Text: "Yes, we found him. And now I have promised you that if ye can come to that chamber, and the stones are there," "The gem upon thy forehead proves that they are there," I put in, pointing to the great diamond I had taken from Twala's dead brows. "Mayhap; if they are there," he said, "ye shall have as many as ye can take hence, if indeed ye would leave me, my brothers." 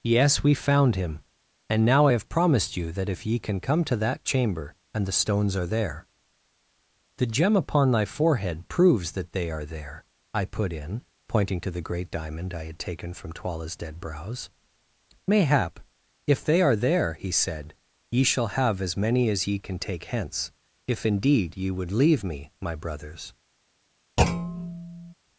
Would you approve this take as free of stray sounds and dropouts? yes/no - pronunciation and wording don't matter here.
no